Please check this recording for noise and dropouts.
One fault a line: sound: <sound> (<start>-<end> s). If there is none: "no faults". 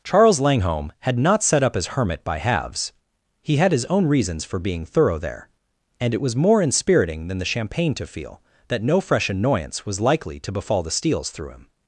no faults